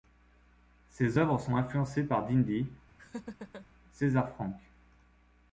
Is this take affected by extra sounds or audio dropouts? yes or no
yes